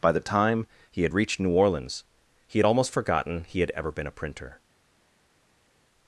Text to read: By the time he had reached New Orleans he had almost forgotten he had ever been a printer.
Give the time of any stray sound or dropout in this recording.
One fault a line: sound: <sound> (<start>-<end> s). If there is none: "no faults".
no faults